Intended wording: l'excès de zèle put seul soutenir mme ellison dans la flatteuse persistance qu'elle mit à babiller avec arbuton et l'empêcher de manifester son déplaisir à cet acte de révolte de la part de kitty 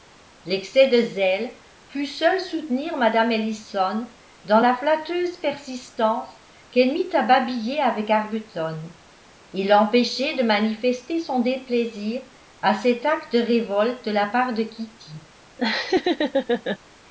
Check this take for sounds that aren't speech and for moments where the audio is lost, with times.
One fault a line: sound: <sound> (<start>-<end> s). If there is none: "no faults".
sound: laugh (15.6-16.8 s)